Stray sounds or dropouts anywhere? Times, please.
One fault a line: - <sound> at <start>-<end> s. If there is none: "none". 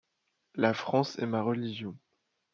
none